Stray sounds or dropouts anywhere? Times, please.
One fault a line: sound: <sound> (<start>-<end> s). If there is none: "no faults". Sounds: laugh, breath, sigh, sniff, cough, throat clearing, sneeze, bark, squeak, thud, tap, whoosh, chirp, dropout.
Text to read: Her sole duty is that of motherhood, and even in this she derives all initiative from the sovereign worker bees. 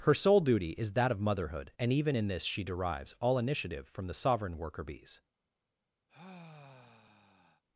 sound: sigh (6.1-7.6 s)